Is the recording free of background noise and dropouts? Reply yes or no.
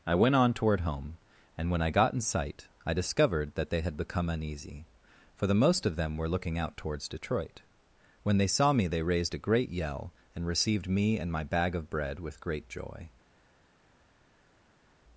yes